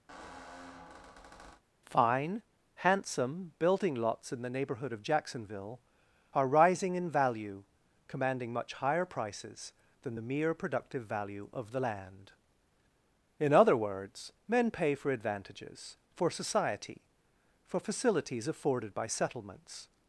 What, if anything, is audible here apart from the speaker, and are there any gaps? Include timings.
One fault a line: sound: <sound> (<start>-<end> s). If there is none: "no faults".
sound: squeak (0.1-1.6 s)